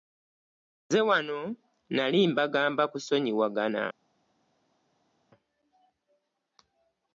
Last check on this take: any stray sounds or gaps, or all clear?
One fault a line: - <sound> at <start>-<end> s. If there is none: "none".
none